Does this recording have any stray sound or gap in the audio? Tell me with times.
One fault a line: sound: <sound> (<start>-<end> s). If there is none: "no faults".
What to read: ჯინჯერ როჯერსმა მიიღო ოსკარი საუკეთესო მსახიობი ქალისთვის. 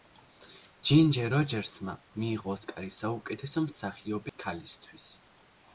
sound: dropout (4.3-4.4 s)